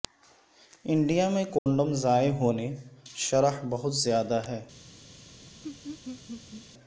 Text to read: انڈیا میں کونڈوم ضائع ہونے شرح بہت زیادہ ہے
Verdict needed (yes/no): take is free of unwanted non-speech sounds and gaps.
no